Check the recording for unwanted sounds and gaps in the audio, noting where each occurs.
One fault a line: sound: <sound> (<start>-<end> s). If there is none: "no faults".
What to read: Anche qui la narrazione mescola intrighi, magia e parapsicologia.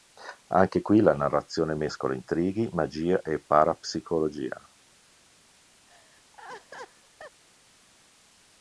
sound: laugh (5.9-7.4 s)